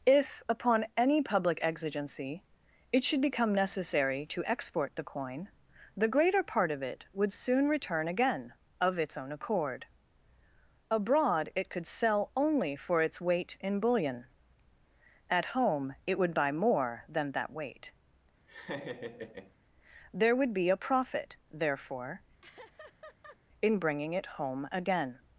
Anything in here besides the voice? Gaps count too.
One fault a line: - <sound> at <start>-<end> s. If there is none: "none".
- laugh at 18.5-19.6 s
- laugh at 22.4-23.4 s